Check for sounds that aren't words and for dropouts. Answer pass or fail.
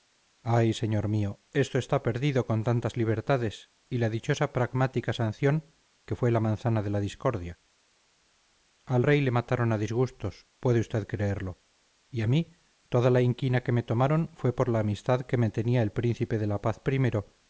pass